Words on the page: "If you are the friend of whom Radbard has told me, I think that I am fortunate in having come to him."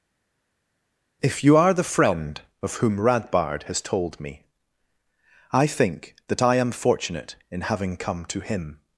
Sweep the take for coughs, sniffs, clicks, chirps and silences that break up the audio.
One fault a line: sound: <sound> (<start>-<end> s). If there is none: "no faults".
no faults